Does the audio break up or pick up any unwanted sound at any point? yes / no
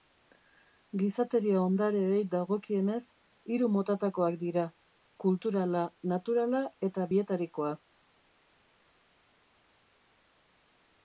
no